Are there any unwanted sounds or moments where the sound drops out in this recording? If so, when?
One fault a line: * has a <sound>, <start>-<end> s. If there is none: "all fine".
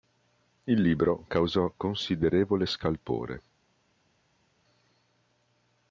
all fine